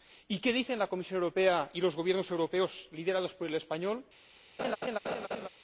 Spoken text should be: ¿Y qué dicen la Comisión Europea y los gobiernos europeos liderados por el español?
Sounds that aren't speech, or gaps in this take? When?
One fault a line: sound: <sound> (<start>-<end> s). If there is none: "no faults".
sound: laugh (4.6-5.5 s)